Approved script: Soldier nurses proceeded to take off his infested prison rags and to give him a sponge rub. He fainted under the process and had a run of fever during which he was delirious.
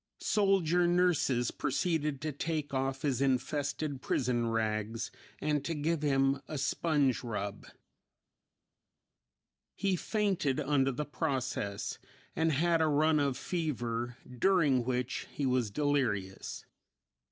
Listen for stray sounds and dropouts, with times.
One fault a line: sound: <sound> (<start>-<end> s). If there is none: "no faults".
no faults